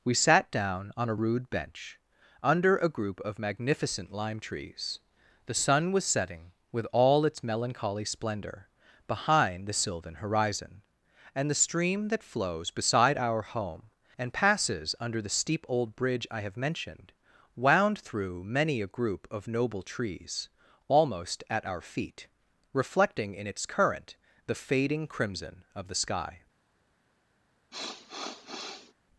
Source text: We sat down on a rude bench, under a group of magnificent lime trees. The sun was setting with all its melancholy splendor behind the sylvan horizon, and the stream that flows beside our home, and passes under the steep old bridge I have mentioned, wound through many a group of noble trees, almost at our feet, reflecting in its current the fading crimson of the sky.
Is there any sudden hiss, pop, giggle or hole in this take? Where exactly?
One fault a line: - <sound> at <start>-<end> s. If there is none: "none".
- sniff at 27.7-28.9 s